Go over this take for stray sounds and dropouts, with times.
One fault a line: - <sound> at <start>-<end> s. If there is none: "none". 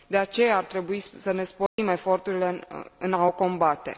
- dropout at 1.7-1.8 s